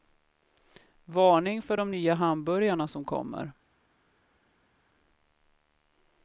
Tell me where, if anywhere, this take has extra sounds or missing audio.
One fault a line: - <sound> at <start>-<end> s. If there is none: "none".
none